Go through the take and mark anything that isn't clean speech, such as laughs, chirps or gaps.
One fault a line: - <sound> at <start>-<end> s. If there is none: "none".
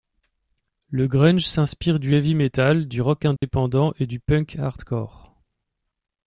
- dropout at 3.4-3.4 s